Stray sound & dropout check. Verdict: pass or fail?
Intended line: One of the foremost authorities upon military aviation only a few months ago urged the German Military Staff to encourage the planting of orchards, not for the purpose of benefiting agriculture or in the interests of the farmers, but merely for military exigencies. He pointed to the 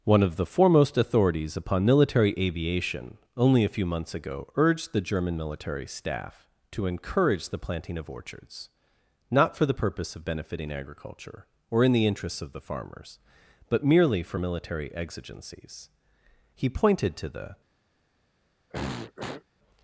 fail